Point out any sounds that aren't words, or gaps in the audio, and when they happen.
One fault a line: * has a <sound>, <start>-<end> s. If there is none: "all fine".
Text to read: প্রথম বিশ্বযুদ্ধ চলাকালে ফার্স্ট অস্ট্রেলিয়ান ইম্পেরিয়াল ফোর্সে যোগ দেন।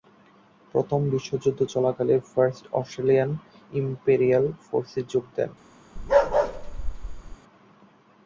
* has a bark, 6.0-7.4 s